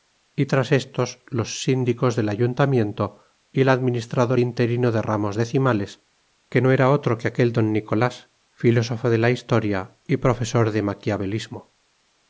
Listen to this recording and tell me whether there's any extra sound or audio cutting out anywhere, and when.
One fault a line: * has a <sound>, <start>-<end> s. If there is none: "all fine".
all fine